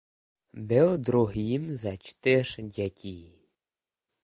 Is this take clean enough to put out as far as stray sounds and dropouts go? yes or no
yes